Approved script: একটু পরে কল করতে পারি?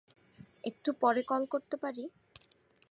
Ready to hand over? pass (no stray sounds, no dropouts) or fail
pass